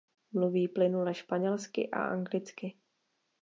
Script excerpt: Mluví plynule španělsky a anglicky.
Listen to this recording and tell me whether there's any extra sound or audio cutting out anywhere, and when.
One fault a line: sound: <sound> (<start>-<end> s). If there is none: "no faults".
no faults